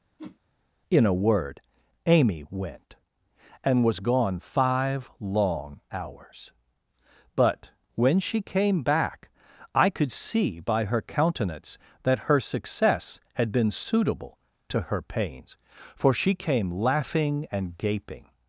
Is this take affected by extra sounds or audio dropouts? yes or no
yes